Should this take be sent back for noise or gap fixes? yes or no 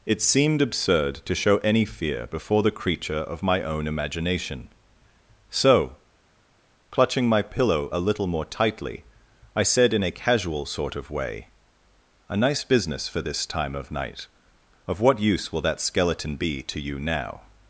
no